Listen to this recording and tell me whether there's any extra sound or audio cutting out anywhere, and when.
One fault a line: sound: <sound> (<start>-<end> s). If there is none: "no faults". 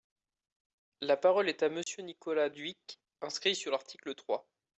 sound: dropout (1.8-1.9 s)